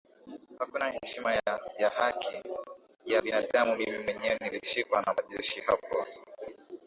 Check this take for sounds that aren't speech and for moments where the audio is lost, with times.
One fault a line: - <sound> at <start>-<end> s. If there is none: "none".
none